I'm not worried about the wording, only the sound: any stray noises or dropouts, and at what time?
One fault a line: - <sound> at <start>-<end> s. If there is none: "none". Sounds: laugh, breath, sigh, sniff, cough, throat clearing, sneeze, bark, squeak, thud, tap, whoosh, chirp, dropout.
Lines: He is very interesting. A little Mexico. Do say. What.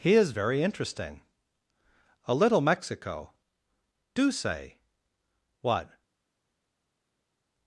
none